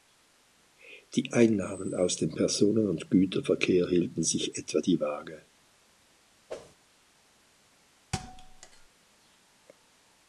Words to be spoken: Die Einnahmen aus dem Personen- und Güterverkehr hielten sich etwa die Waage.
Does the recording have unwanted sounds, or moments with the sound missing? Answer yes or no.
yes